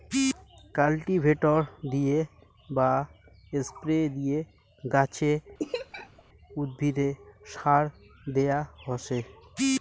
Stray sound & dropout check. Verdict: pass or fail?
fail